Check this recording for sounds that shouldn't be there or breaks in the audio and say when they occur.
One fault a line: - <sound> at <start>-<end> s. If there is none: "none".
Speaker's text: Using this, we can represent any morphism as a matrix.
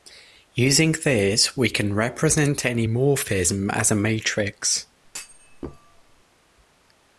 - thud at 5.0-6.2 s